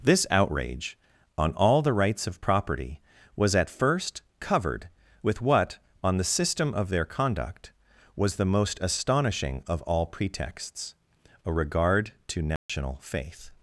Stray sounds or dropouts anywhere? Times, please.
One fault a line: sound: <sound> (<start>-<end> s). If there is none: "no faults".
sound: dropout (12.6-12.7 s)